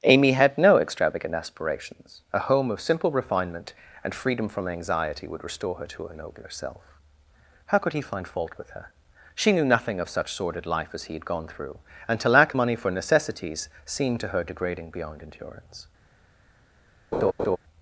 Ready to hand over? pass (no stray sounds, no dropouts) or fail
fail